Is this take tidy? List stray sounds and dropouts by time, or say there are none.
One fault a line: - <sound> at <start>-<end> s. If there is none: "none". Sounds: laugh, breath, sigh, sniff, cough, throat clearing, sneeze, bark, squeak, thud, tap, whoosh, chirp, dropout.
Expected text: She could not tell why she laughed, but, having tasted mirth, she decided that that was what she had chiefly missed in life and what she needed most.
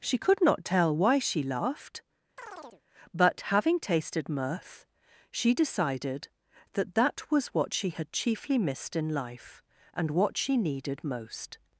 - chirp at 2.4-2.8 s